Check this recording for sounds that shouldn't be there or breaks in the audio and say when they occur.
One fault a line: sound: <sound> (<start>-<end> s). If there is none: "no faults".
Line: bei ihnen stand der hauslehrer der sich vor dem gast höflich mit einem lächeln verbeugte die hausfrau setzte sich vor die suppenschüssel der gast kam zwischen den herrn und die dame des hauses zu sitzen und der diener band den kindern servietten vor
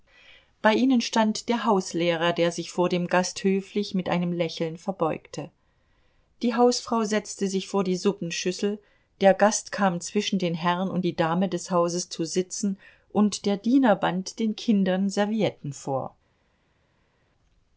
no faults